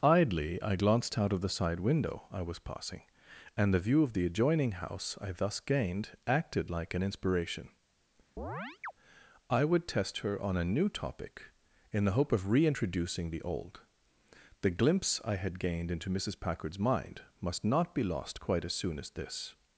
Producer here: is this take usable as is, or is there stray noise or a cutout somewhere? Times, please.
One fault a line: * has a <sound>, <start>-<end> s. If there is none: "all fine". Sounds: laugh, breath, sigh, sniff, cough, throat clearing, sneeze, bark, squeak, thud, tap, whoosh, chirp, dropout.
* has a chirp, 8.4-8.9 s